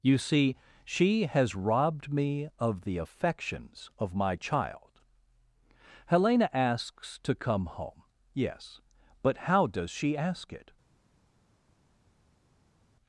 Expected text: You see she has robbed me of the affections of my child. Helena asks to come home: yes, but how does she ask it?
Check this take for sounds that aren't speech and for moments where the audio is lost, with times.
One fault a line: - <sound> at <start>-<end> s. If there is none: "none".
none